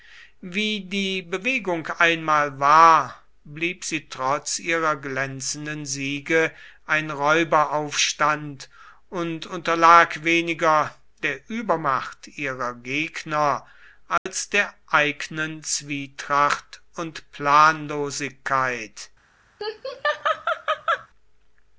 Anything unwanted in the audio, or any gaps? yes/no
yes